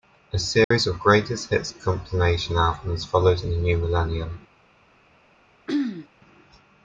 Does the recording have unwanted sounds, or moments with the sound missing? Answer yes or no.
yes